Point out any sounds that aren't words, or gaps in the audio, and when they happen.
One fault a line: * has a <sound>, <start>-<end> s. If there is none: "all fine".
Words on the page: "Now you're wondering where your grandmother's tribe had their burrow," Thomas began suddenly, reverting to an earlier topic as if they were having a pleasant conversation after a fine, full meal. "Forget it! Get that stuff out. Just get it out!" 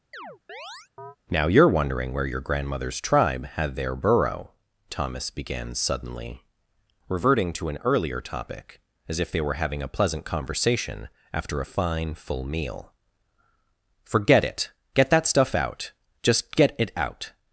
* has a chirp, 0.1-1.2 s